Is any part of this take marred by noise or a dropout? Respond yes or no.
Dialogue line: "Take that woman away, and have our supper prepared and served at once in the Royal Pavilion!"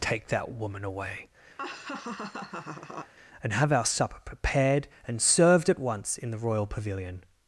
yes